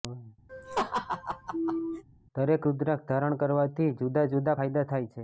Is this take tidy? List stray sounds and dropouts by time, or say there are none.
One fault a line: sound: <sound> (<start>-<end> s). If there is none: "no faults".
sound: laugh (0.5-2.0 s)